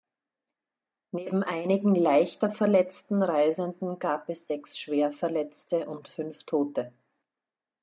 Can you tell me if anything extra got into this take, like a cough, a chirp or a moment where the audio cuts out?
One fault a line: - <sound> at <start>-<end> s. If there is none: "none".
none